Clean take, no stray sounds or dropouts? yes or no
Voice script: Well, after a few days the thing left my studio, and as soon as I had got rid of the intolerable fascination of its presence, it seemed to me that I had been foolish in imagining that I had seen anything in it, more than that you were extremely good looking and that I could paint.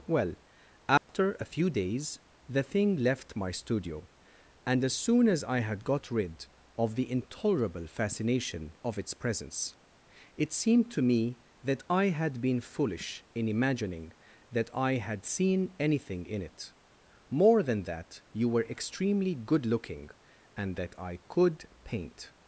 no